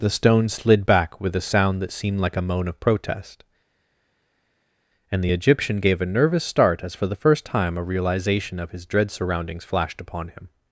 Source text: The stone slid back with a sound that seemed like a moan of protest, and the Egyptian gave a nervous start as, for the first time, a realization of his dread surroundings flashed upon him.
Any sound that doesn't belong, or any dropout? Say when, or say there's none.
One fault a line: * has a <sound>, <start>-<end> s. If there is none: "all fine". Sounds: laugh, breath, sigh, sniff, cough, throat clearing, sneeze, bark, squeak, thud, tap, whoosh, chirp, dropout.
all fine